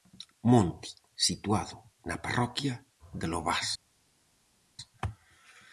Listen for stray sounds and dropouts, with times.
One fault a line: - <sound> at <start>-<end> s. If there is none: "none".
none